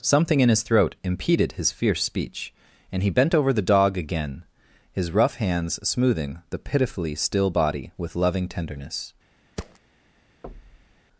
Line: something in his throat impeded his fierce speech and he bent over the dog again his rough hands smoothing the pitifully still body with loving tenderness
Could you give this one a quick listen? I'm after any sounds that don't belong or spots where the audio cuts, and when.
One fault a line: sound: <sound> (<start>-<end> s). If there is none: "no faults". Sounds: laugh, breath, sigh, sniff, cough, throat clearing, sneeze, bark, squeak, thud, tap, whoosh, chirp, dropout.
sound: thud (9.6-9.8 s)
sound: thud (10.4-11.0 s)